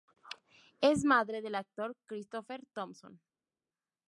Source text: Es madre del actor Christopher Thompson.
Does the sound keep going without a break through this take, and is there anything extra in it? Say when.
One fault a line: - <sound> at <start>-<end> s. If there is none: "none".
none